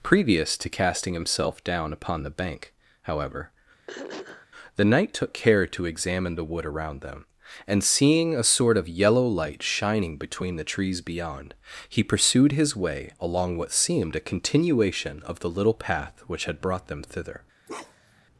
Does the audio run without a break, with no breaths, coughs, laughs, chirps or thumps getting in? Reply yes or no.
no